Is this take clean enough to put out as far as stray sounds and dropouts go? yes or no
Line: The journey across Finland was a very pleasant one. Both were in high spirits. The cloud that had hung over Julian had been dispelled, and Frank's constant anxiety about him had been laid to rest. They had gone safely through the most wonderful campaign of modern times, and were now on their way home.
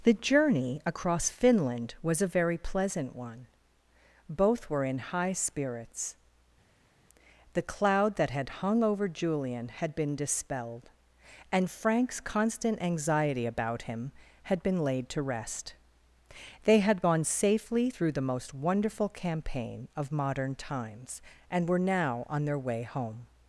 yes